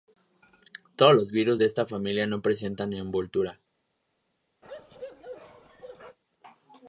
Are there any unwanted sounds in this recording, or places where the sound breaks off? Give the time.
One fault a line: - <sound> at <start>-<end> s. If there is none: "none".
- bark at 4.6-6.2 s